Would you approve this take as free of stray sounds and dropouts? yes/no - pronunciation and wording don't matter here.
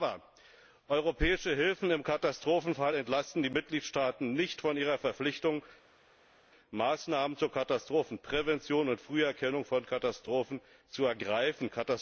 yes